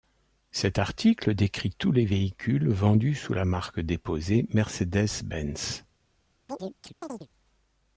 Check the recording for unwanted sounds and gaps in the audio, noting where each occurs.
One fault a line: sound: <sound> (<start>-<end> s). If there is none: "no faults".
sound: chirp (6.5-7.3 s)